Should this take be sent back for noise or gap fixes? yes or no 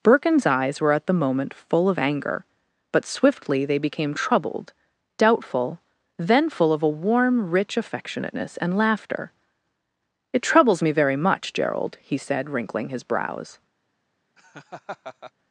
yes